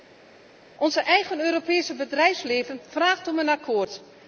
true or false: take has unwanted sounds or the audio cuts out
false